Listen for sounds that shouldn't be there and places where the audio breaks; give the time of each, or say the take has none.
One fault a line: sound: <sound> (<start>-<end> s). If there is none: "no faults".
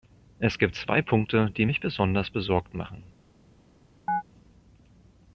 sound: chirp (4.1-4.2 s)